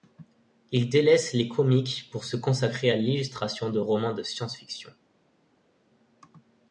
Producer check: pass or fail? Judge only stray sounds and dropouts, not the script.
pass